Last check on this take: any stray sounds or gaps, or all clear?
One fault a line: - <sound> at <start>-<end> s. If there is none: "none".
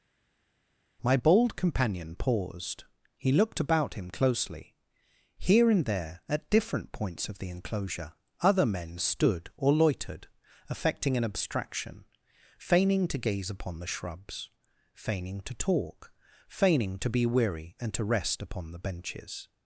none